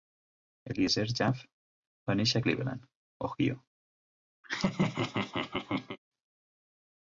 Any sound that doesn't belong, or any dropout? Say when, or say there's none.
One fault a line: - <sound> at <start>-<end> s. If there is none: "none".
- laugh at 4.4-6.0 s